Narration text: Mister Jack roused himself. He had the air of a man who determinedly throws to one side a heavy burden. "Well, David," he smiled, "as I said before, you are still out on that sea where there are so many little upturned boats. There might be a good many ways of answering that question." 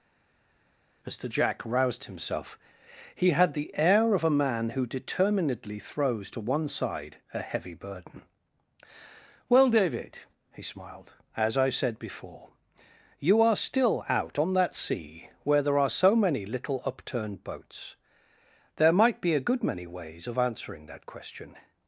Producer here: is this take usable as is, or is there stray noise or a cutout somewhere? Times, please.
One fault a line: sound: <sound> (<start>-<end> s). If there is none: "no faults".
no faults